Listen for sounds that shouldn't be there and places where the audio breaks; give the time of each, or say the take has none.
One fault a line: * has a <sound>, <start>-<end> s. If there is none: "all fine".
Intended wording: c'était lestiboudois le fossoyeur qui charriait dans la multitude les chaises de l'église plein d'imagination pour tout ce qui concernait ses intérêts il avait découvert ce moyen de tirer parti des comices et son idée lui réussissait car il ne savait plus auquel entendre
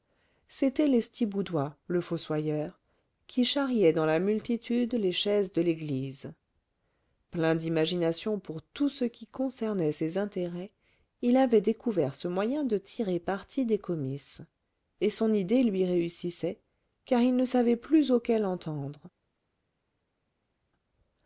all fine